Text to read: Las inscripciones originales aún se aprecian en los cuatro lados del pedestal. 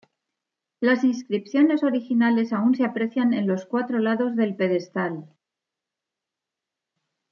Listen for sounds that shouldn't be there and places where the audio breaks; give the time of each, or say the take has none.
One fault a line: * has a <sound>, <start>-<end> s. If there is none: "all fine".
all fine